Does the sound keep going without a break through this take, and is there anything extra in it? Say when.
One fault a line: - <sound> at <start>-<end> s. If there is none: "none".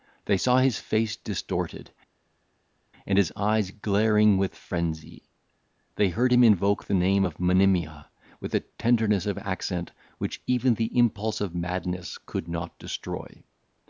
none